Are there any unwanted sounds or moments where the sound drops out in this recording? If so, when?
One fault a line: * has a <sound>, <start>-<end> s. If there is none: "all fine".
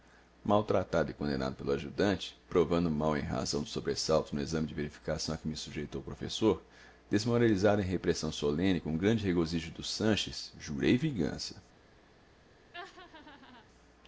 * has a laugh, 12.7-13.7 s